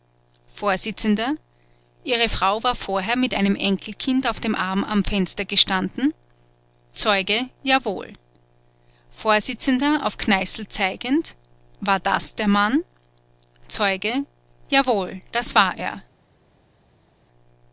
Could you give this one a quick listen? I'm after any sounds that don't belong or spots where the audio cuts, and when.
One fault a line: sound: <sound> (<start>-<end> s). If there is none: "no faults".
no faults